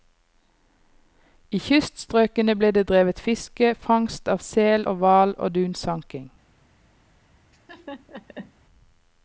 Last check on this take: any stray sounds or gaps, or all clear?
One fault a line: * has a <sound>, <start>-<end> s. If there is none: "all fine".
* has a laugh, 7.5-8.5 s